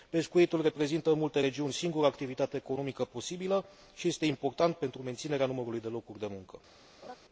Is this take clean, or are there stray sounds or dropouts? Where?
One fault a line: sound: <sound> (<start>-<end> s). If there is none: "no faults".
sound: laugh (7.0-7.2 s)